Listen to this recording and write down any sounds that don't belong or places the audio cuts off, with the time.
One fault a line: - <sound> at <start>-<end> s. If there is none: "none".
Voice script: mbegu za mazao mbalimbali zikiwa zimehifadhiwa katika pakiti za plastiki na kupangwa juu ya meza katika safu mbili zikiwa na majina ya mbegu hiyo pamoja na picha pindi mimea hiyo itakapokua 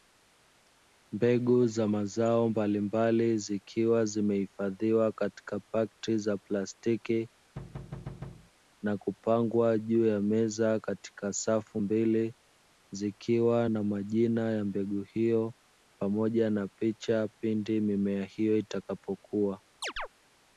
- thud at 7.6-8.5 s
- chirp at 19.8-20.1 s